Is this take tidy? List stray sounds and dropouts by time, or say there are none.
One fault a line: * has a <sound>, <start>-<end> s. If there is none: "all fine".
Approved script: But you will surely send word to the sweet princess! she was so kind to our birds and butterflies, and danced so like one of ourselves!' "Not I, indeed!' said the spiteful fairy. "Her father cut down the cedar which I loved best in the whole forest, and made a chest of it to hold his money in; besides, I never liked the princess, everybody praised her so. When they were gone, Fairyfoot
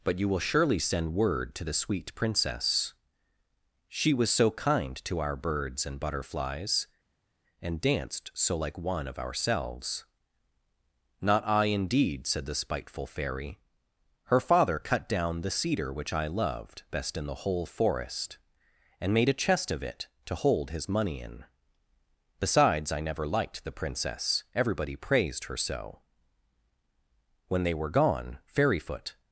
all fine